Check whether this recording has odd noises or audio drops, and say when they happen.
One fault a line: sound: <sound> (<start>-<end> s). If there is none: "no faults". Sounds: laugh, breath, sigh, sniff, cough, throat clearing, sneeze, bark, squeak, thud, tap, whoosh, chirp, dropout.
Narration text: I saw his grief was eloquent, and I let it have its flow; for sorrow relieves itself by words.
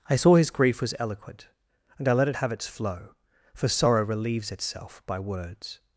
no faults